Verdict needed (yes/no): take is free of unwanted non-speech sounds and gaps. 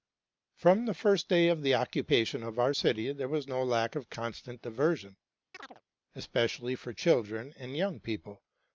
no